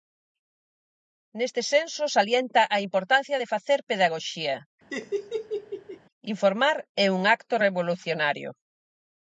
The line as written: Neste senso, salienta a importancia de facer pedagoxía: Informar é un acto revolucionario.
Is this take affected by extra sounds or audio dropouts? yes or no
yes